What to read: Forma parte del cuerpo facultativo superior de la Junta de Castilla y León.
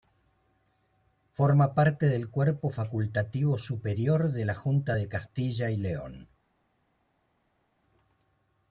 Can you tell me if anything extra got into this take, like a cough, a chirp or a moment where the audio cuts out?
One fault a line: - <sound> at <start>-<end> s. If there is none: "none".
none